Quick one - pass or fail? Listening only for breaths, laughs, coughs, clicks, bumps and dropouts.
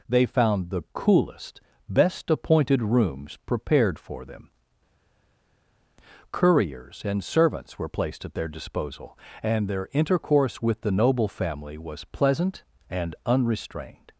pass